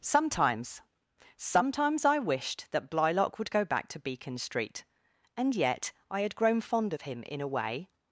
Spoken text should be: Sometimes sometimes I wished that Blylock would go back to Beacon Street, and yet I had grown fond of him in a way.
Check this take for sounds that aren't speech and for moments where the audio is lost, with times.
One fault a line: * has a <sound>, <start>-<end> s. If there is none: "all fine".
all fine